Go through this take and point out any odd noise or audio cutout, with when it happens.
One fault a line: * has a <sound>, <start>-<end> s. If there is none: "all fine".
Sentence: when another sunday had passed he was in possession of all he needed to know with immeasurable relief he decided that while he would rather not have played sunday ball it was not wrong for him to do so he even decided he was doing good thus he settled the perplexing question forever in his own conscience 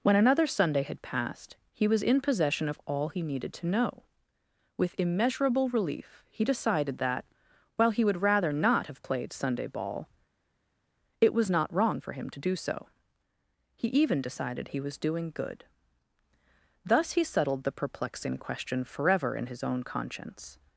all fine